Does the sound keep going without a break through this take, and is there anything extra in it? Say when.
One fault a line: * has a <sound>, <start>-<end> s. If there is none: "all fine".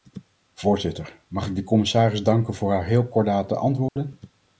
* has a dropout, 3.9-4.0 s